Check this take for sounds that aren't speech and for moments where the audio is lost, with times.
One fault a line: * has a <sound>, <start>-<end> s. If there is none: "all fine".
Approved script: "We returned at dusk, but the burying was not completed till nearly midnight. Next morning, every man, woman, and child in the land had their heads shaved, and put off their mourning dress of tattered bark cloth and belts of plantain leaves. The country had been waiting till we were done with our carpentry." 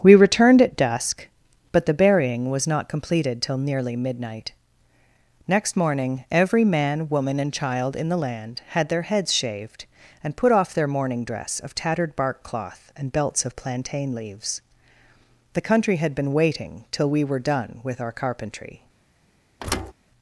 * has a thud, 19.6-19.9 s